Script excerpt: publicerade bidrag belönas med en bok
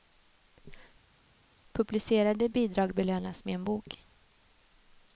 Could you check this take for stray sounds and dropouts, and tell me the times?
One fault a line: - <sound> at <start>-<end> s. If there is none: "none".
none